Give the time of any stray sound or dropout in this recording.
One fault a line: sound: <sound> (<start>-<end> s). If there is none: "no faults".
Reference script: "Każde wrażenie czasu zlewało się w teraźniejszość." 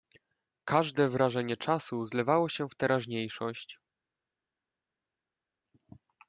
no faults